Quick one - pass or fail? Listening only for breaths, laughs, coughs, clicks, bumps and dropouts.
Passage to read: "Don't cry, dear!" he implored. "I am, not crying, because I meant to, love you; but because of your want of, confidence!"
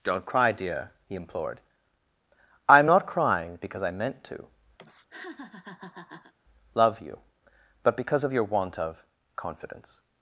fail